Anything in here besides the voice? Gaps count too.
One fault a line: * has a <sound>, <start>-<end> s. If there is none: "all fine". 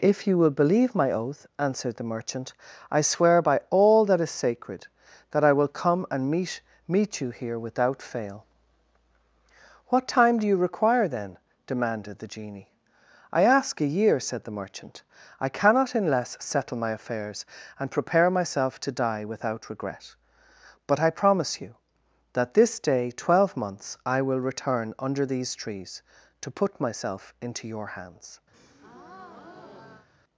* has a breath, 28.5-30.1 s